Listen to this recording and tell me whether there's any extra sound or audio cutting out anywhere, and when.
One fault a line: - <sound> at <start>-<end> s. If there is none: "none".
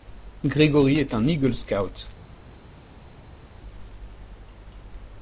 none